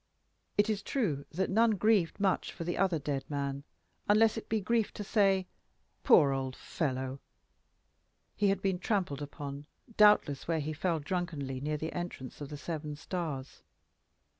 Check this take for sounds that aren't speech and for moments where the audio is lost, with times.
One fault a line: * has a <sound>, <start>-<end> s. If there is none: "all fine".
all fine